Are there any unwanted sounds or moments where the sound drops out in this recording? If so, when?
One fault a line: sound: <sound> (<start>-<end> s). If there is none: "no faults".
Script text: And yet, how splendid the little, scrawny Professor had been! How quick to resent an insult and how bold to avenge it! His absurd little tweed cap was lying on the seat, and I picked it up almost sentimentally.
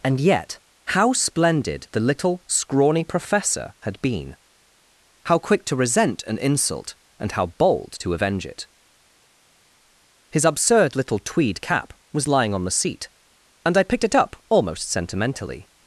no faults